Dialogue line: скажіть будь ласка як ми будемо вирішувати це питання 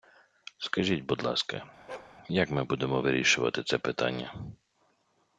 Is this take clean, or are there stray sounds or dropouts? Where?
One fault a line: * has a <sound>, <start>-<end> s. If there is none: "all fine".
* has a bark, 1.9-2.2 s